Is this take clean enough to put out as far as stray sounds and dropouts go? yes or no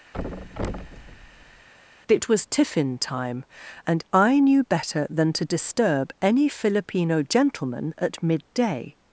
no